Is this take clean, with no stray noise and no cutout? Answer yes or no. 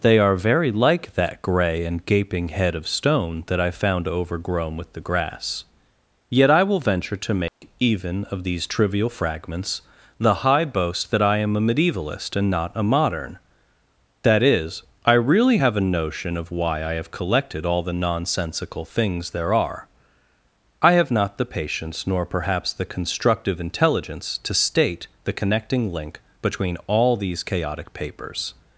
no